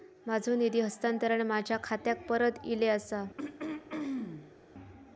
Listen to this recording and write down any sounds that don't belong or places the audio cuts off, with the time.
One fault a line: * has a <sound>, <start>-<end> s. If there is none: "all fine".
* has a throat clearing, 3.4-4.5 s